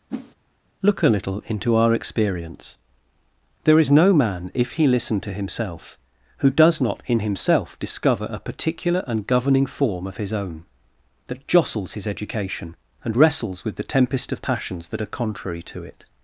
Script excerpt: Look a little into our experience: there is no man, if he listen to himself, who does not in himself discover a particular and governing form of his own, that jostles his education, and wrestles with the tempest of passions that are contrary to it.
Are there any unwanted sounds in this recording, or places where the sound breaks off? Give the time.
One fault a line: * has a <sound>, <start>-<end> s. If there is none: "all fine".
* has a whoosh, 0.1-0.3 s